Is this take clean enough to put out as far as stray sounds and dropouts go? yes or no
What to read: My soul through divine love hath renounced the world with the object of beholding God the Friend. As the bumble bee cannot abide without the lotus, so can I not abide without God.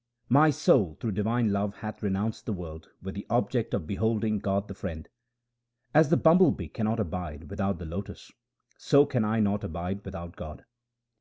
yes